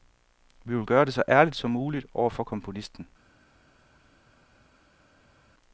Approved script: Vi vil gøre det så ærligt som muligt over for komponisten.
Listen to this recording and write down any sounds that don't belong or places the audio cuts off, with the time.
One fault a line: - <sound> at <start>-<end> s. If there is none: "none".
none